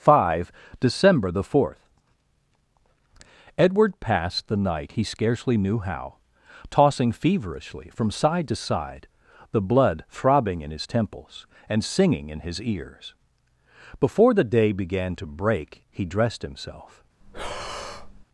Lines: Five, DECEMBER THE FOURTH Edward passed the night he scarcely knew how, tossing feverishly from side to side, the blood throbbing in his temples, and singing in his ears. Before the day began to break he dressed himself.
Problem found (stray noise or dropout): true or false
true